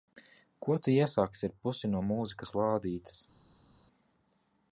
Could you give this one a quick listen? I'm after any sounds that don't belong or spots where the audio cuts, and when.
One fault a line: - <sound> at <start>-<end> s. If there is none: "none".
none